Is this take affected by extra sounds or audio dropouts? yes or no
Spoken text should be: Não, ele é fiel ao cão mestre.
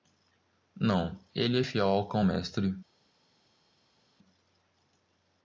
no